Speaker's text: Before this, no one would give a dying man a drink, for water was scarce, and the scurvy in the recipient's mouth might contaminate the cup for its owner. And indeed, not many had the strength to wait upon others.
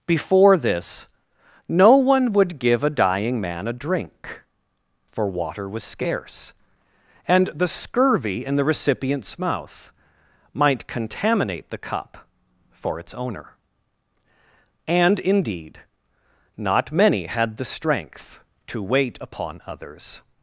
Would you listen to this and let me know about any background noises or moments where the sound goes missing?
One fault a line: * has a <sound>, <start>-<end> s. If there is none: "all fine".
all fine